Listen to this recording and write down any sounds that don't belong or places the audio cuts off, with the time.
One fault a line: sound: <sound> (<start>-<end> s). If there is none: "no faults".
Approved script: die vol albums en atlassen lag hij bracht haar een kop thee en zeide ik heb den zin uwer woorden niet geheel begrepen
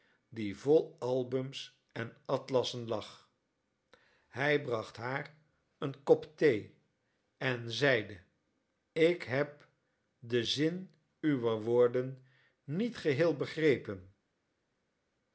no faults